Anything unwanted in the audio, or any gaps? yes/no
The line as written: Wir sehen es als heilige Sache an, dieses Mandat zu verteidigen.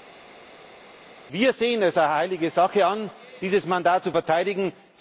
no